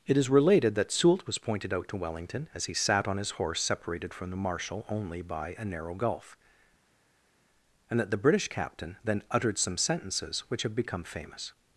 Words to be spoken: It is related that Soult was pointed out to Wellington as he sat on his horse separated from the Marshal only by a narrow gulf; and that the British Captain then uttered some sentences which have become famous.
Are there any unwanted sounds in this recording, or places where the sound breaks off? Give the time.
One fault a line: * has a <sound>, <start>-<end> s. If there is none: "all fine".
all fine